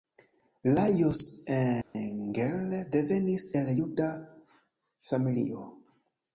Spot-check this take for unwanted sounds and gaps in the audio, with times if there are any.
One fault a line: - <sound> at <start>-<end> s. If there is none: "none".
- dropout at 1.8-1.9 s